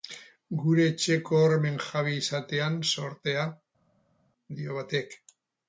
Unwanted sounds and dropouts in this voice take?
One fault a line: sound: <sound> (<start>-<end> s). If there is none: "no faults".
no faults